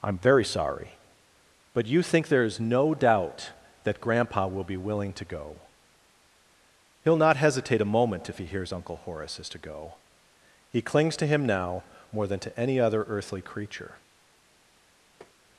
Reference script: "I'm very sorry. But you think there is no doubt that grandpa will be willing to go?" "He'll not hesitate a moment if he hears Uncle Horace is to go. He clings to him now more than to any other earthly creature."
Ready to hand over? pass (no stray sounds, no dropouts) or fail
fail